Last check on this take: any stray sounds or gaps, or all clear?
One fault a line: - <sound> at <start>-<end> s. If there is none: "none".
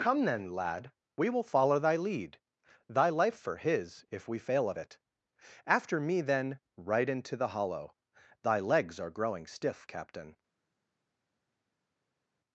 none